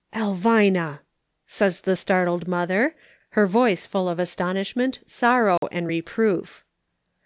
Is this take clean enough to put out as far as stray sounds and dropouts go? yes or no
no